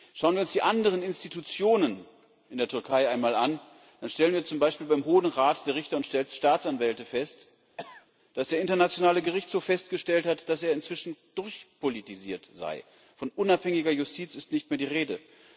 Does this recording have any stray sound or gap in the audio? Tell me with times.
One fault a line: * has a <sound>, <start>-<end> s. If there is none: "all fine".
* has a cough, 7.8-8.1 s